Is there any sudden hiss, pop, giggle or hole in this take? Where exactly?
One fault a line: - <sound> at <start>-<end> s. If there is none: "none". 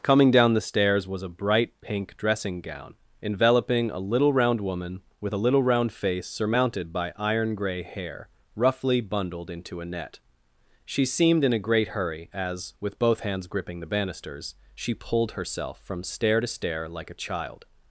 none